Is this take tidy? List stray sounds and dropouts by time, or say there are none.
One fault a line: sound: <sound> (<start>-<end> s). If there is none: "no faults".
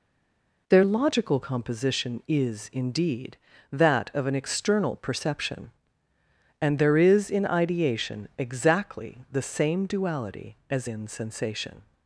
no faults